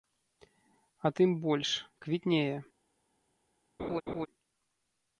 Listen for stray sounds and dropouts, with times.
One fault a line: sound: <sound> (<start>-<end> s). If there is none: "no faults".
sound: laugh (3.8-4.3 s)